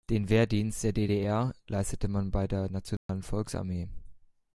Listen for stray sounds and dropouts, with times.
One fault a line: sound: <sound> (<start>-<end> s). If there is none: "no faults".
sound: dropout (3.0-3.1 s)